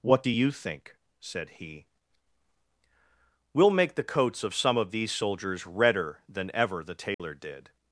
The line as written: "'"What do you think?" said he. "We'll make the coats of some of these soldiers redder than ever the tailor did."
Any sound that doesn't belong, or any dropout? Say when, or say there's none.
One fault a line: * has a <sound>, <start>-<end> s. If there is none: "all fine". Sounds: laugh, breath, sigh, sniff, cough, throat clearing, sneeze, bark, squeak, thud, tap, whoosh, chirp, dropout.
* has a dropout, 7.1-7.2 s